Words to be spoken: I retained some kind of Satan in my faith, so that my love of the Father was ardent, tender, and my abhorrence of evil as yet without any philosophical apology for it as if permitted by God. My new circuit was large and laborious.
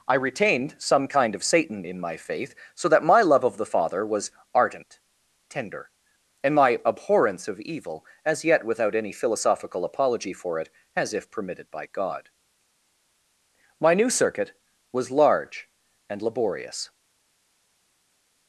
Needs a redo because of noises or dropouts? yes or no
no